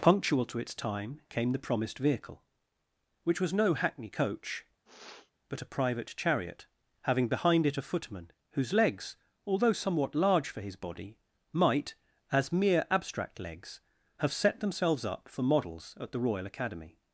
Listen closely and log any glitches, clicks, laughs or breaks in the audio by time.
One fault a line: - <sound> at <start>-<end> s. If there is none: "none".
- sniff at 4.9-5.3 s